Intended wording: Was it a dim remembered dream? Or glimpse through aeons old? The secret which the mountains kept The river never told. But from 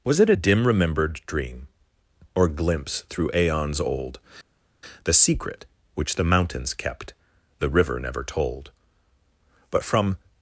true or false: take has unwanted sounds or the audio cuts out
false